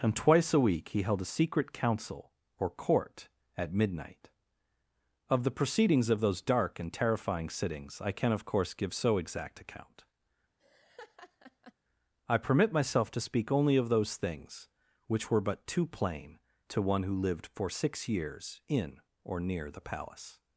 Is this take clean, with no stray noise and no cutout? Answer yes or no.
no